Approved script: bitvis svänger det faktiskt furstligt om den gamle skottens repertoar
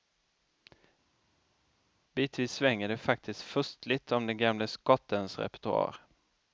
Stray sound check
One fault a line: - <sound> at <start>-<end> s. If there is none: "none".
none